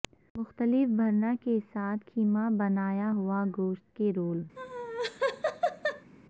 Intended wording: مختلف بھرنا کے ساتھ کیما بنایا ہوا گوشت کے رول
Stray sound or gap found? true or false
true